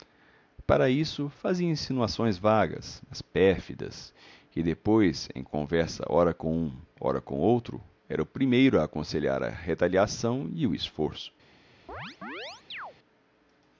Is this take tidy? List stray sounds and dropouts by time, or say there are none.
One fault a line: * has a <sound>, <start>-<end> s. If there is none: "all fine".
* has a chirp, 11.9-12.9 s